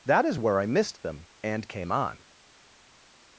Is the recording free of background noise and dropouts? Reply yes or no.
yes